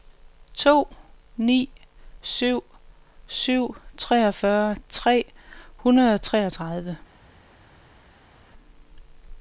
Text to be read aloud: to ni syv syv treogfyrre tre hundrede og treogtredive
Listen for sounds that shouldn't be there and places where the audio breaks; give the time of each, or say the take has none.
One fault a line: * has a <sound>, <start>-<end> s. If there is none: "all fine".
all fine